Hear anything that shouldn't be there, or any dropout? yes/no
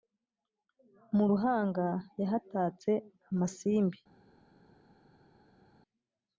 no